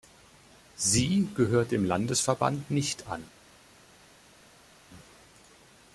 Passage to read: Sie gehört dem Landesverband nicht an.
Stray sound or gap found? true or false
false